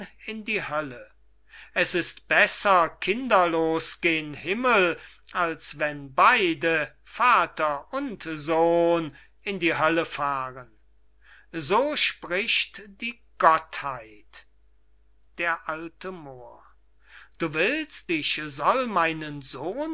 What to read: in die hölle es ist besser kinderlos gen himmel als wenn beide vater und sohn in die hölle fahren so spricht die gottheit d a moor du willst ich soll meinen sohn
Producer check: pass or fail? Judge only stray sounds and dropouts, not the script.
pass